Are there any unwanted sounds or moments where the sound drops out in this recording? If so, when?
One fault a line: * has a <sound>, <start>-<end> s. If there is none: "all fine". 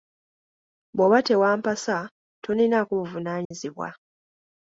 * has a dropout, 3.4-3.5 s